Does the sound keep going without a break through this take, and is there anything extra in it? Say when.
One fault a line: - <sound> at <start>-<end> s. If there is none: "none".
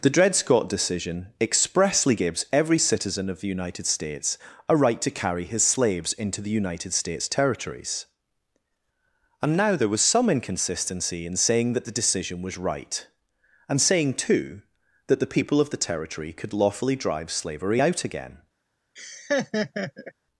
- laugh at 19.0-20.1 s